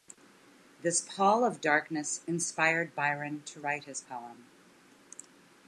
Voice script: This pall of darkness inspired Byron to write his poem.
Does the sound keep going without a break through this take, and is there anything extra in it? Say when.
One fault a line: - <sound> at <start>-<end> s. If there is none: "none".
none